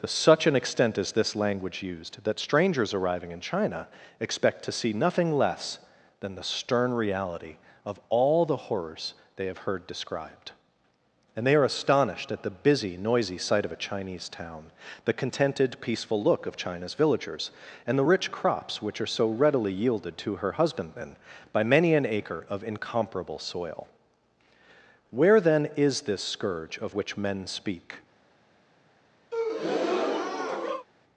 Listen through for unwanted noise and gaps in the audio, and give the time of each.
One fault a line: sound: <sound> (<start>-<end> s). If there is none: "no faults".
sound: breath (29.3-30.9 s)